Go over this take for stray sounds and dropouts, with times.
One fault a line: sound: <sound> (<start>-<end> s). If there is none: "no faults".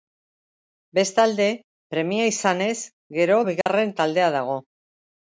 sound: dropout (3.6-3.7 s)